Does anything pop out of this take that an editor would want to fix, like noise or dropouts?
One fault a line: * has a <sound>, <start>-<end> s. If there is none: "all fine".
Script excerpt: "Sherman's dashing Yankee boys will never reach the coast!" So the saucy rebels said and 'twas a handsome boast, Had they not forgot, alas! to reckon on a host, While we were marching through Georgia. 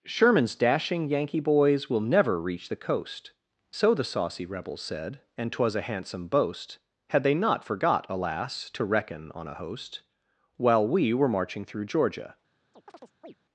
* has a chirp, 12.7-13.3 s